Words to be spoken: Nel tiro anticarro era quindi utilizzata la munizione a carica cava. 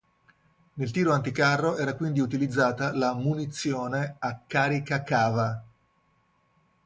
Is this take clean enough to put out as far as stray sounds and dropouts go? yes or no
yes